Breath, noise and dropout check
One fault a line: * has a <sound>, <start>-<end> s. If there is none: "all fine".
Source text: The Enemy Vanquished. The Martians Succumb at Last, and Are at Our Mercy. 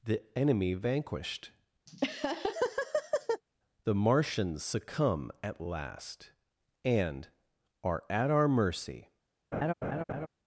* has a laugh, 1.9-3.4 s
* has a laugh, 9.5-10.3 s